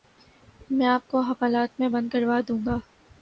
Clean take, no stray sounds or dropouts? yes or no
yes